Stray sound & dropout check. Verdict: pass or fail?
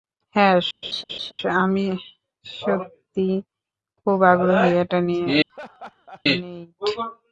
fail